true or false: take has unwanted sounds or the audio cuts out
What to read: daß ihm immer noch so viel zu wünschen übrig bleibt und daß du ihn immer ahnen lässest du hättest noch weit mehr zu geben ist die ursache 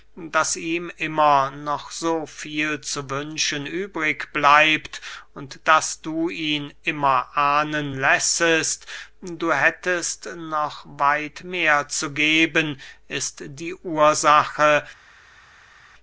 false